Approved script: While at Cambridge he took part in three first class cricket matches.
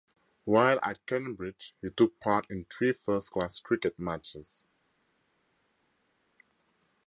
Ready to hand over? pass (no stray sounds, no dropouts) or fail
pass